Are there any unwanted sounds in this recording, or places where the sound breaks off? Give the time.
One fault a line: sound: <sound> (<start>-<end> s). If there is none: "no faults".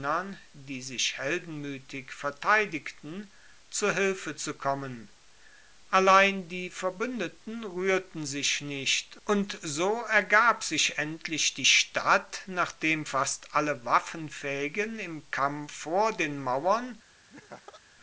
sound: laugh (17.3-17.8 s)